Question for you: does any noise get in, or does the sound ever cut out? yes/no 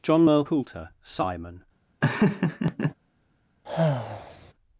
yes